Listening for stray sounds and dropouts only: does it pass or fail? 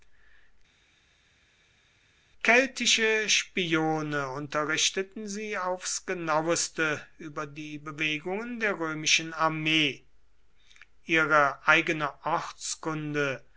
pass